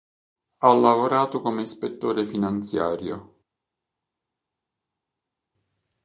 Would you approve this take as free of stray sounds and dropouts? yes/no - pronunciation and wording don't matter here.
yes